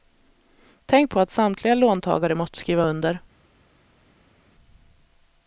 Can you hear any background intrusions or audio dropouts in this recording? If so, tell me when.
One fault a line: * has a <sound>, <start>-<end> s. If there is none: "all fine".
all fine